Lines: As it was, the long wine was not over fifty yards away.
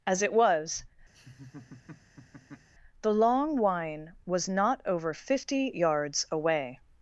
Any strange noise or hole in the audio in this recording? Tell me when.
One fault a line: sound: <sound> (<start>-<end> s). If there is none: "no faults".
sound: laugh (1.1-2.7 s)